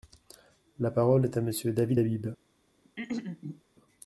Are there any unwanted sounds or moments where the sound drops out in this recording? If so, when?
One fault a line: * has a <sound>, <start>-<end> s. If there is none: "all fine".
* has a throat clearing, 2.8-3.6 s